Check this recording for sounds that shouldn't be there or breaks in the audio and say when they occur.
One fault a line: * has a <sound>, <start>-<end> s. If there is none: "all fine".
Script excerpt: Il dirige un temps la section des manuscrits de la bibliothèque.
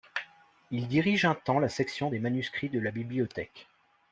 all fine